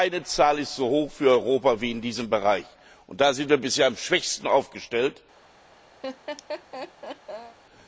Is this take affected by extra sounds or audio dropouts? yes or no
yes